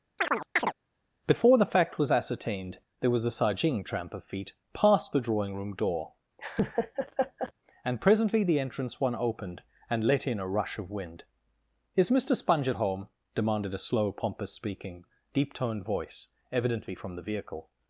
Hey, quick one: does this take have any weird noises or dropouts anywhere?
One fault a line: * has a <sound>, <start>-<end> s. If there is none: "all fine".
* has a chirp, 0.2-0.7 s
* has a laugh, 6.4-7.5 s